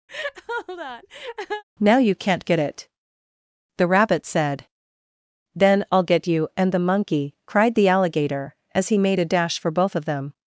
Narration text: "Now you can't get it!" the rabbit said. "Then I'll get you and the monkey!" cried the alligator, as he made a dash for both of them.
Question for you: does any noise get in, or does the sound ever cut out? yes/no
yes